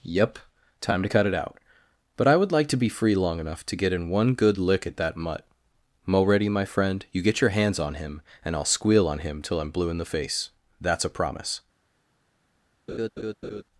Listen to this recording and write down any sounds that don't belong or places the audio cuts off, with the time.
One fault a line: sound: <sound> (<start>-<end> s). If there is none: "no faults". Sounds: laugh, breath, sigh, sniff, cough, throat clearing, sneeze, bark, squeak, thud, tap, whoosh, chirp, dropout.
sound: laugh (12.9-13.6 s)